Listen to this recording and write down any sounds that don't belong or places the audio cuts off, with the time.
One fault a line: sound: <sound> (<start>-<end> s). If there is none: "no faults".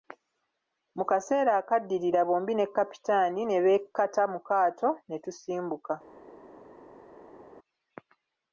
no faults